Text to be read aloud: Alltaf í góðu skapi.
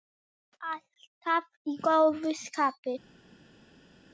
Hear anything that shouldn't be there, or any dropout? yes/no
no